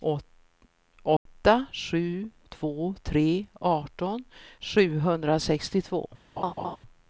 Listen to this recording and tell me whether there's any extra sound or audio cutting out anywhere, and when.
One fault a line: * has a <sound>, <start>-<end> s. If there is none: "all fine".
* has a dropout, 1.2-1.3 s
* has a laugh, 6.4-6.8 s